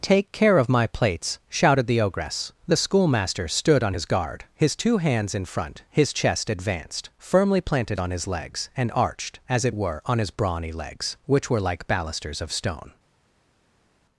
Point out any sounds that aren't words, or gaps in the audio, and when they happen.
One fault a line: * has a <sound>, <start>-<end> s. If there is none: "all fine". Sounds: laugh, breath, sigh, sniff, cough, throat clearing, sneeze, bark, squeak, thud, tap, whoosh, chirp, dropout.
all fine